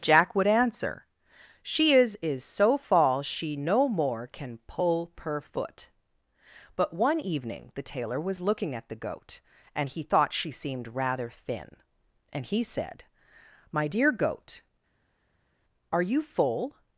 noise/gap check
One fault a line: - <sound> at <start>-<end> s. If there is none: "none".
none